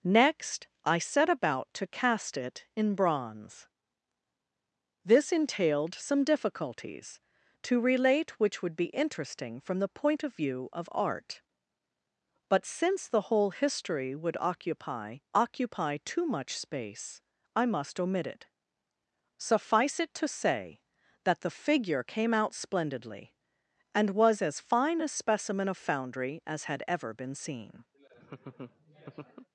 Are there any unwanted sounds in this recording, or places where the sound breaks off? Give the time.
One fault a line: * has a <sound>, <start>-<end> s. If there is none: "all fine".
* has a laugh, 27.9-29.5 s